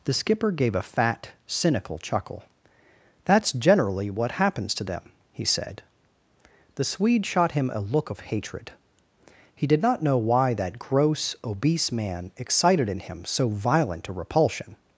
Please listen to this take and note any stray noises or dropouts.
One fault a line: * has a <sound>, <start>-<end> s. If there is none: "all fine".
all fine